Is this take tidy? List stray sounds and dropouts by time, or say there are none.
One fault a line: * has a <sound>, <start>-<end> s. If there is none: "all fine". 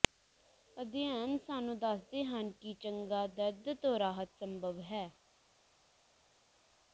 all fine